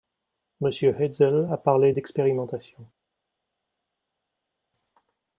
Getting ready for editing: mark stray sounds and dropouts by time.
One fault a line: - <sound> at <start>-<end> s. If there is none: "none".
none